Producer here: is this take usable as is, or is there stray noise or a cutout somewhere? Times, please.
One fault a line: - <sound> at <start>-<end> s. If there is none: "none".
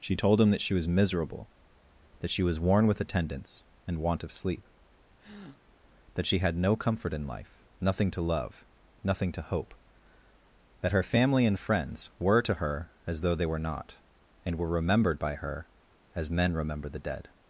- breath at 5.2-5.6 s